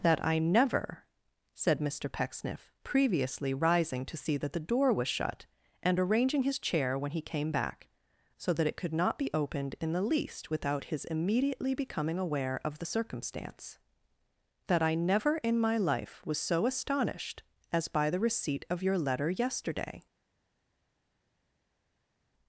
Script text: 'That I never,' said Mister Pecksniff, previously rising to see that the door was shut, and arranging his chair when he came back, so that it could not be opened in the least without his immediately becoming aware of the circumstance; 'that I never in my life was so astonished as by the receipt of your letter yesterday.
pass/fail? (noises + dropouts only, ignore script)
pass